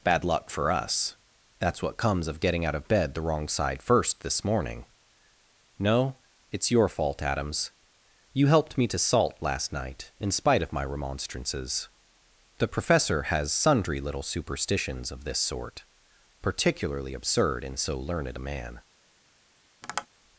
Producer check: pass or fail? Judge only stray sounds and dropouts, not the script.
fail